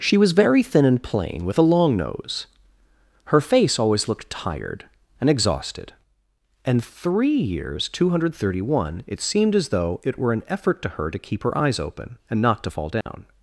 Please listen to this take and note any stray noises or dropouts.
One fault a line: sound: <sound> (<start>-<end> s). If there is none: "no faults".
sound: dropout (13.0-13.1 s)